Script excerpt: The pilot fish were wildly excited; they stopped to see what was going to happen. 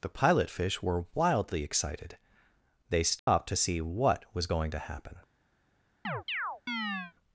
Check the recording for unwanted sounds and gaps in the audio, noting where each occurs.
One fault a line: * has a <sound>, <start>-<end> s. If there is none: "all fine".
* has a dropout, 3.2-3.3 s
* has a chirp, 6.0-7.1 s